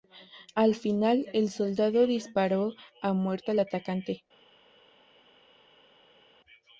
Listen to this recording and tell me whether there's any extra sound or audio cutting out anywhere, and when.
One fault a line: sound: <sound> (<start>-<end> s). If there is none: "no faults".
no faults